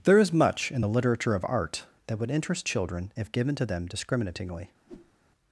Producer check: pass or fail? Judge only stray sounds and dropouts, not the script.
fail